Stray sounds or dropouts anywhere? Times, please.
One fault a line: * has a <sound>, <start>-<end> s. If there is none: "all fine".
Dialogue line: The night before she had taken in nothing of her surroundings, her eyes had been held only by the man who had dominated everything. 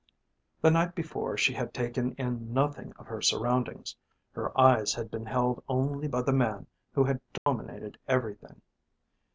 * has a dropout, 7.4-7.5 s